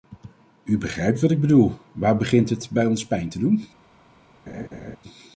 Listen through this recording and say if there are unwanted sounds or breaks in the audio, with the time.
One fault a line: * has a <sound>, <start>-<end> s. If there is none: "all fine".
* has a laugh, 4.5-5.0 s